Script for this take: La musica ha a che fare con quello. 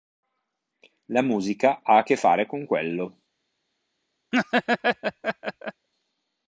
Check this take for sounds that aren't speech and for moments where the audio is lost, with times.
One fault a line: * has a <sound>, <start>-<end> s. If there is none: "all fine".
* has a laugh, 4.3-5.9 s